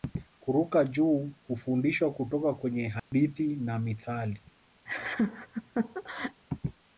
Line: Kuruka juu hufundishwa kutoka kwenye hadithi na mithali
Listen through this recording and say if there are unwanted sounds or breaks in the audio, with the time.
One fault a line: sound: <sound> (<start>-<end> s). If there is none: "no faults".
sound: dropout (3.0-3.1 s)
sound: laugh (4.9-6.4 s)